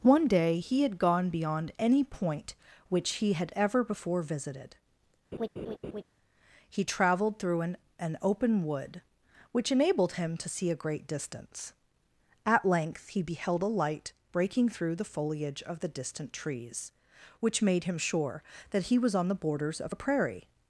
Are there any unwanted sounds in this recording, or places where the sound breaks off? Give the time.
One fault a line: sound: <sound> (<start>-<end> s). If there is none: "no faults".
sound: laugh (5.3-6.0 s)